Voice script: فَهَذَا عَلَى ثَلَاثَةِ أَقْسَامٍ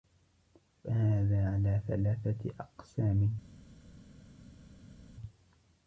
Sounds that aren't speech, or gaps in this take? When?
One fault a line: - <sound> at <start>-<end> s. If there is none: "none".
none